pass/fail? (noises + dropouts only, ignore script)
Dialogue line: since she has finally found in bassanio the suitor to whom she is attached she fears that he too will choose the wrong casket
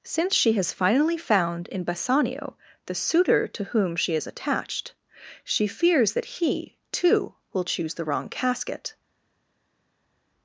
pass